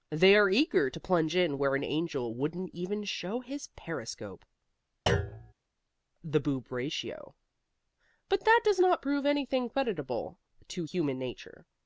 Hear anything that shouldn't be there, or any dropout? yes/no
yes